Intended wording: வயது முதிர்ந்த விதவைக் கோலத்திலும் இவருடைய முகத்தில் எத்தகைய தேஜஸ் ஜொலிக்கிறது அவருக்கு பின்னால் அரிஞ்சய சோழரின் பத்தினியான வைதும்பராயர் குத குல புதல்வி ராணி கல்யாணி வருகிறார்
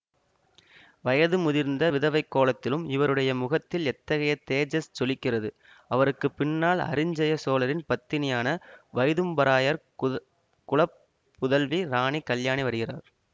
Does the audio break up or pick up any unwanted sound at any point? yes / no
no